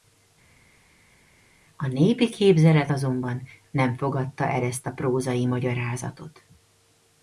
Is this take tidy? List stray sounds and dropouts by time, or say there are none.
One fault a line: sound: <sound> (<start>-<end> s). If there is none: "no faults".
no faults